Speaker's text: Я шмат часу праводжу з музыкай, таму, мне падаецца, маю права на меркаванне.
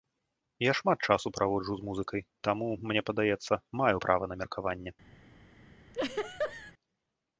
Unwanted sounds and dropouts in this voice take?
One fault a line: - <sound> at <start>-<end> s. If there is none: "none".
- laugh at 5.9-6.7 s